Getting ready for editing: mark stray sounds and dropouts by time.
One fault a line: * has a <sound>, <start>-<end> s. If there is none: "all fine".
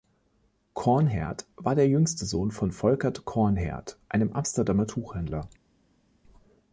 all fine